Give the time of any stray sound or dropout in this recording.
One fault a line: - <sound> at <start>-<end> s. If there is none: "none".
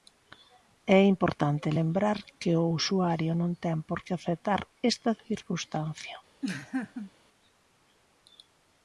- laugh at 6.4-7.1 s